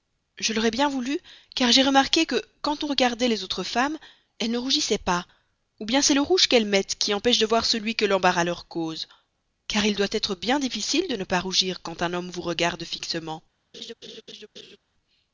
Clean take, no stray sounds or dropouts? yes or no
no